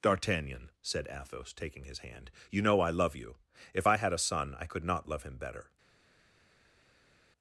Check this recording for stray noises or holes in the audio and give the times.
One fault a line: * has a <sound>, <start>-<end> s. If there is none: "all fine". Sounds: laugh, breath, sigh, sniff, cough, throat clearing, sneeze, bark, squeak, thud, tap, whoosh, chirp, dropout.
all fine